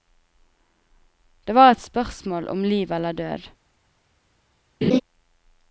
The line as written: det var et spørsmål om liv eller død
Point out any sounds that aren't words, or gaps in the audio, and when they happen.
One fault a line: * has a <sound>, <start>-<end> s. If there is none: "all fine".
* has a laugh, 4.8-5.0 s